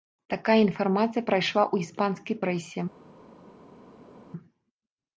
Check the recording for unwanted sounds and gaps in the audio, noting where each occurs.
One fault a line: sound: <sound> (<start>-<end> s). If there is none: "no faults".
no faults